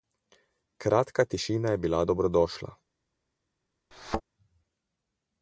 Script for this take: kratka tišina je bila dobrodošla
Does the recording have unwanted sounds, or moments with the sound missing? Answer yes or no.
yes